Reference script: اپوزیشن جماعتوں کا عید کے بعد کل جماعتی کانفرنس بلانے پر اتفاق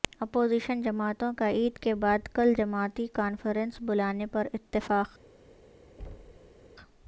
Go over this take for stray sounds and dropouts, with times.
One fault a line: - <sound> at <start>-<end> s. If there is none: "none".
- thud at 6.0-6.7 s